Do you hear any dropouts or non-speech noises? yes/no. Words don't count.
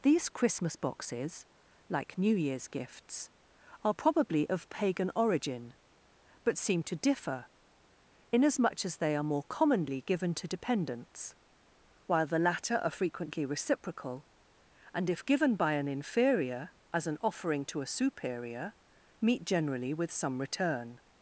no